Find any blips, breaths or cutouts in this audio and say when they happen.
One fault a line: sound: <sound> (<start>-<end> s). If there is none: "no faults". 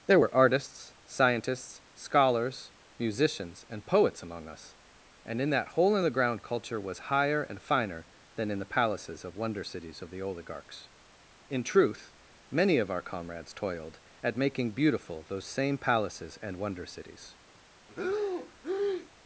sound: breath (17.9-19.1 s)